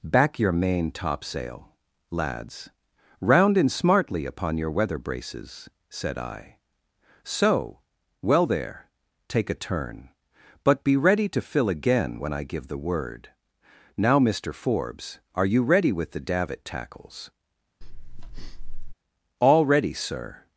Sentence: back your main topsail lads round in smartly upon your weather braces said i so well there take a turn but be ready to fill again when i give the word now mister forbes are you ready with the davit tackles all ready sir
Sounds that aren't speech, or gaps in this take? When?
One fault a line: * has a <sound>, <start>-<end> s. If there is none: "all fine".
* has a breath, 17.8-18.9 s